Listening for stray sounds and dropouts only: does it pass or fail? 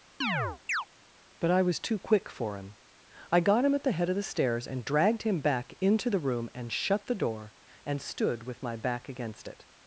fail